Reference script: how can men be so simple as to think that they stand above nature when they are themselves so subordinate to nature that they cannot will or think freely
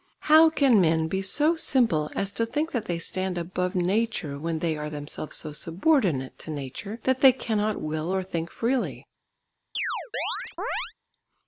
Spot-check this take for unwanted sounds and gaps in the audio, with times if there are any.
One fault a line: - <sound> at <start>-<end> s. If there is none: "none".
- chirp at 9.7-10.9 s